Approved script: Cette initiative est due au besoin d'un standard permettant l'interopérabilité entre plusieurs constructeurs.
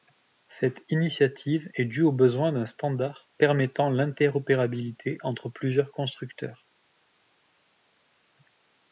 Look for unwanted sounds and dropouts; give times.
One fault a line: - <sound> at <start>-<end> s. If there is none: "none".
none